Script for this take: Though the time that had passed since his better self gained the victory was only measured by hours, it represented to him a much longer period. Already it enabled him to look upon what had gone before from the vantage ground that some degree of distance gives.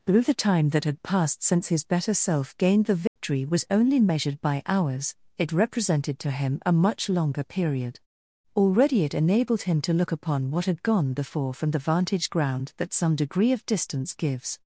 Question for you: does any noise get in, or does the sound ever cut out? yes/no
yes